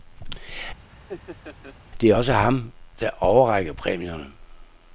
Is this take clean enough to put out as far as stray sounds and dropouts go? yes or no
no